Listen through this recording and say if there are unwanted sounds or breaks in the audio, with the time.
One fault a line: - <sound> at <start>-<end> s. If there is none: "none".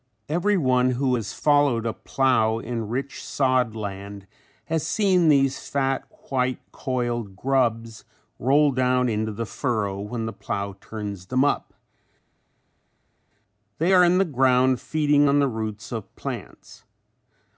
none